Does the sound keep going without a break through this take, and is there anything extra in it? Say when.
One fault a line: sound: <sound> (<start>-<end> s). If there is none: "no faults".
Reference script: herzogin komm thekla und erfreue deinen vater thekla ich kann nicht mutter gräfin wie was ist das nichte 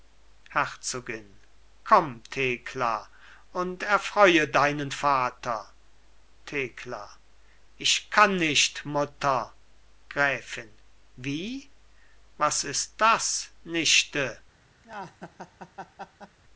sound: laugh (14.8-16.4 s)